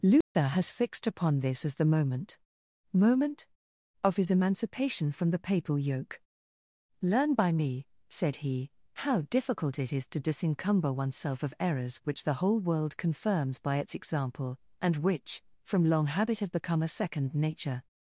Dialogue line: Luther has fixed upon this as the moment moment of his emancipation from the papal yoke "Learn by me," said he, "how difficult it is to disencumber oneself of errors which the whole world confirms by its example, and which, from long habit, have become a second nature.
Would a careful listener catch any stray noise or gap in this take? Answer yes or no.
yes